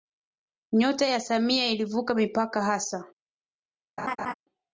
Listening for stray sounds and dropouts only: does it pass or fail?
fail